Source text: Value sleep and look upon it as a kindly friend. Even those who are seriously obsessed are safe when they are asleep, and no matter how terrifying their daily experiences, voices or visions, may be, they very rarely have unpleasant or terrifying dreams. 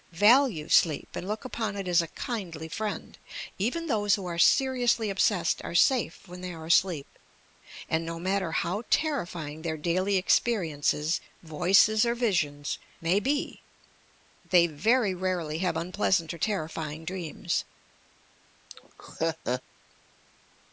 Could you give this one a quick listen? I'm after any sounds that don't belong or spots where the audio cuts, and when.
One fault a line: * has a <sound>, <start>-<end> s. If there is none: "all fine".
* has a laugh, 18.7-19.6 s